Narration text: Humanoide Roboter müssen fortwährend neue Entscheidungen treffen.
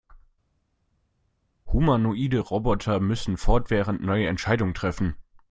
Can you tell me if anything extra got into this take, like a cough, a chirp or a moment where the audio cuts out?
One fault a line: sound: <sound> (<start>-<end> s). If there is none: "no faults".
no faults